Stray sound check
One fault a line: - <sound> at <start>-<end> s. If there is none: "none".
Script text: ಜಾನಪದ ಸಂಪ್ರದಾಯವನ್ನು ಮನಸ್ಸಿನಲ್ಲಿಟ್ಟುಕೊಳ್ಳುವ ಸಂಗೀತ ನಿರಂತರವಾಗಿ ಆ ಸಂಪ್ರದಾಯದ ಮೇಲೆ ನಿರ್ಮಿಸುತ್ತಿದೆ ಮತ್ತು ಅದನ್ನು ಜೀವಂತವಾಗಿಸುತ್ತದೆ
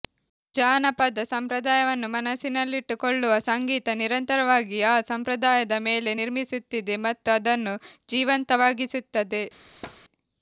- thud at 9.8-10.0 s